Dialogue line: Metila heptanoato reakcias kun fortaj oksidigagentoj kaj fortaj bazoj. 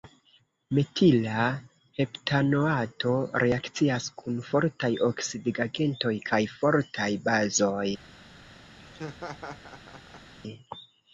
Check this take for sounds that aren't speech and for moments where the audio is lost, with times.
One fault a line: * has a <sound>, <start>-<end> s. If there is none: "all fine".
* has a laugh, 8.8-10.3 s